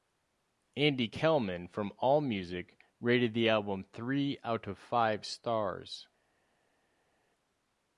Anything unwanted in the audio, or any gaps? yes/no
no